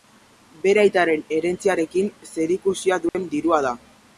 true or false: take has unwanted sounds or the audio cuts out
true